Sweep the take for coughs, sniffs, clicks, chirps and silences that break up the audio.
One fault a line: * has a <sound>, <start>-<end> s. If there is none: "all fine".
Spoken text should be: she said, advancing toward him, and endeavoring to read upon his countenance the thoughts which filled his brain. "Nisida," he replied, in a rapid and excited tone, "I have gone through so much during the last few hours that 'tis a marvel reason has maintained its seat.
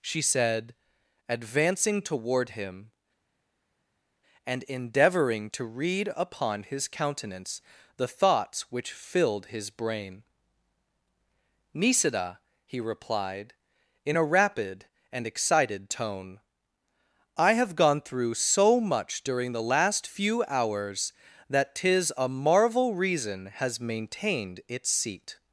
all fine